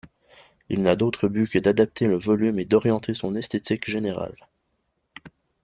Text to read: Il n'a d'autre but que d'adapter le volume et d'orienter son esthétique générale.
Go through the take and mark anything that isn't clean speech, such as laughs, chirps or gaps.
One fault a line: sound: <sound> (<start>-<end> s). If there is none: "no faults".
no faults